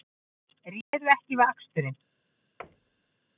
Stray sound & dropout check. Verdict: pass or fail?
fail